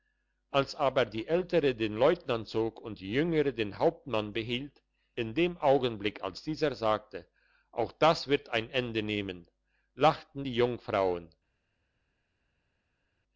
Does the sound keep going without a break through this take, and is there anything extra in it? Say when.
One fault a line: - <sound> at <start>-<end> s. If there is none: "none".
none